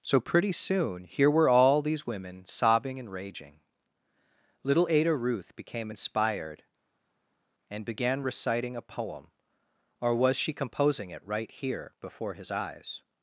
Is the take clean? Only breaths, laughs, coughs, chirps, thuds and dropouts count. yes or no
yes